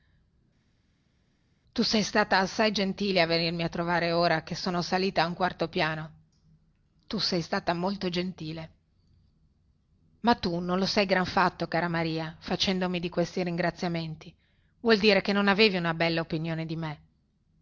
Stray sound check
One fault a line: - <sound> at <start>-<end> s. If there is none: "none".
none